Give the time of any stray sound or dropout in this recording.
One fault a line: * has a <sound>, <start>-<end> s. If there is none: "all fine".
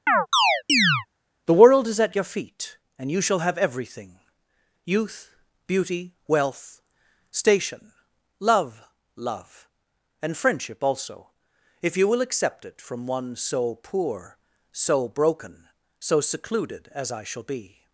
* has a chirp, 0.1-1.1 s